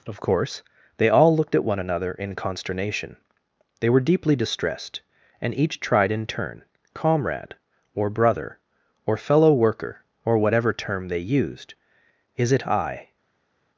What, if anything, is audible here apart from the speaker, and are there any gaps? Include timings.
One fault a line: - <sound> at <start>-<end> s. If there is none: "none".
none